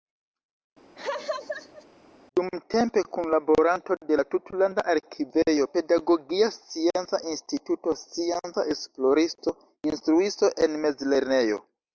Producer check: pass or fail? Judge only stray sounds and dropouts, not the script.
fail